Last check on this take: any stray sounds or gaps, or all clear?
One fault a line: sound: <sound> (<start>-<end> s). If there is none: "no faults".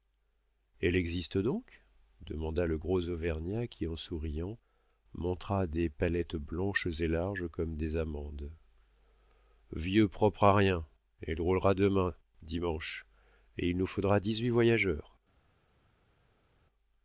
no faults